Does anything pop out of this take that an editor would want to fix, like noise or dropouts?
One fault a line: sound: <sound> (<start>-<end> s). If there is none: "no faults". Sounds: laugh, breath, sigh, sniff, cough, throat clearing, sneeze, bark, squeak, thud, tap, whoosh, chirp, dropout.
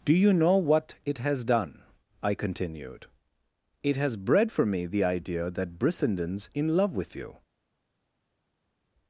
no faults